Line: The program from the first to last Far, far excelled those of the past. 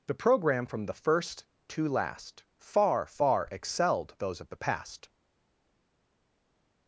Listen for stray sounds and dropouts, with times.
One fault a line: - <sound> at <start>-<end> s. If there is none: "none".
none